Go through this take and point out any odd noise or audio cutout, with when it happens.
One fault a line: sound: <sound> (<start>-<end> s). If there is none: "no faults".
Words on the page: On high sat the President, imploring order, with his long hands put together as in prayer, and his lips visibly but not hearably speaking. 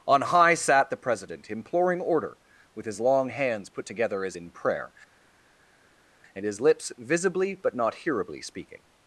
no faults